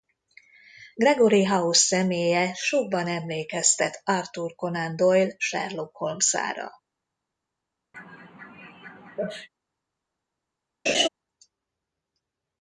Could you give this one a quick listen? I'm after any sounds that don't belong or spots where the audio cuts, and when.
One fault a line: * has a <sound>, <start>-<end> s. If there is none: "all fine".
* has a sneeze, 7.9-9.5 s
* has a laugh, 10.9-11.1 s